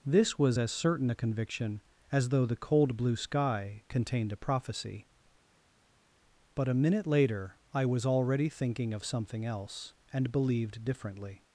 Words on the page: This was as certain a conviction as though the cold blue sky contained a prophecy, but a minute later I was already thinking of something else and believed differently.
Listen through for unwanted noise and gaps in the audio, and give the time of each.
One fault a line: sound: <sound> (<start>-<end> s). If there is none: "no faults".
no faults